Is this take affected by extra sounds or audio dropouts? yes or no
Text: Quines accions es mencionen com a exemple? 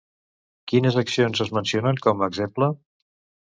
no